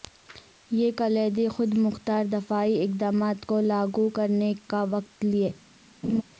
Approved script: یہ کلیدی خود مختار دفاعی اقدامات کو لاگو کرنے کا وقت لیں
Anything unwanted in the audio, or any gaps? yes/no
yes